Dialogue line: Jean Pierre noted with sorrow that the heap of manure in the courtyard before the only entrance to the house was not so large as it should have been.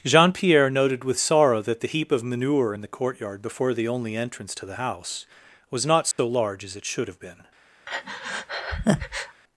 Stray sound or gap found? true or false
true